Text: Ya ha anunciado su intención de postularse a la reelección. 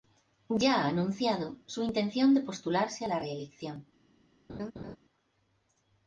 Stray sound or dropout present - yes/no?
yes